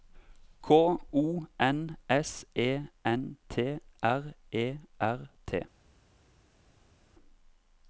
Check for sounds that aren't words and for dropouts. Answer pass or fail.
pass